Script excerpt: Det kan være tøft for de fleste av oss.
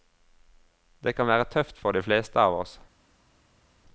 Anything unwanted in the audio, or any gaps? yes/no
no